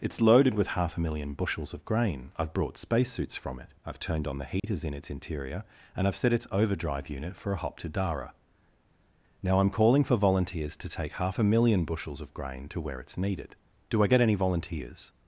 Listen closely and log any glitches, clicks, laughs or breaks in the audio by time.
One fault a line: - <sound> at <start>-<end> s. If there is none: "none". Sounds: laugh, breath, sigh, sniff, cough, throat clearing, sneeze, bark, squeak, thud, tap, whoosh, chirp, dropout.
- dropout at 4.6-4.6 s